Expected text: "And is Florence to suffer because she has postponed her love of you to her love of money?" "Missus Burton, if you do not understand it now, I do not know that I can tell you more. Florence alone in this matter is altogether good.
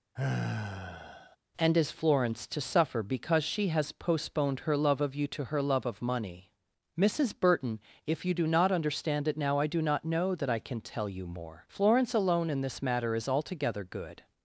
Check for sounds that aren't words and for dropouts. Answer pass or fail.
fail